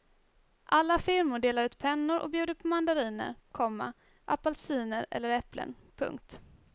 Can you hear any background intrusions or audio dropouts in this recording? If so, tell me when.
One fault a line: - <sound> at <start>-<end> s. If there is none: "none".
none